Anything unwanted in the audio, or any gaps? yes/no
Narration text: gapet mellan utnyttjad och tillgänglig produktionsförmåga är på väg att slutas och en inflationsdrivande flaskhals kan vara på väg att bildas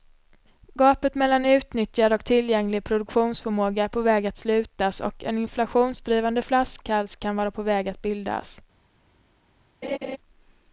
yes